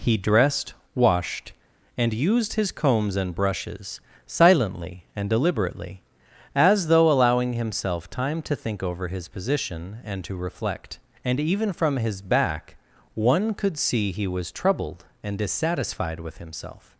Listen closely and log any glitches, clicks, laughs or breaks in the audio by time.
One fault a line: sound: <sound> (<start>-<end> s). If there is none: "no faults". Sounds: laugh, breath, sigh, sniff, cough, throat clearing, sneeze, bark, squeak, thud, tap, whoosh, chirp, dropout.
no faults